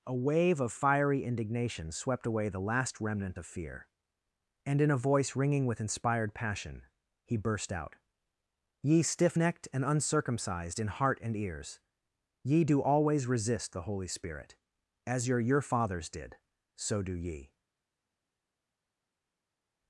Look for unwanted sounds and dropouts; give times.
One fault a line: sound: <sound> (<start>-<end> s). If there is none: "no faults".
no faults